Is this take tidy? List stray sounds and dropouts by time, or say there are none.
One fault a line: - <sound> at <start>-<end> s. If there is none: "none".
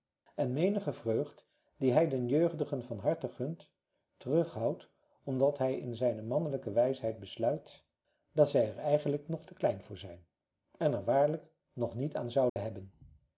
- dropout at 12.5-12.6 s